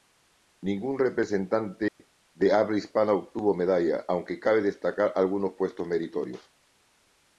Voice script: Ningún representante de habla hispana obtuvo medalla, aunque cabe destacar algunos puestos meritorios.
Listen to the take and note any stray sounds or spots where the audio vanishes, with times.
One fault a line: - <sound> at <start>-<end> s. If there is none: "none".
- dropout at 1.9-2.0 s